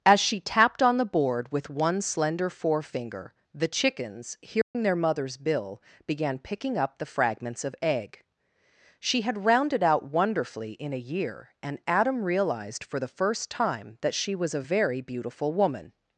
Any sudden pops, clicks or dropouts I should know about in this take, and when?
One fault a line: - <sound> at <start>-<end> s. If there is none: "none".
- dropout at 4.6-4.7 s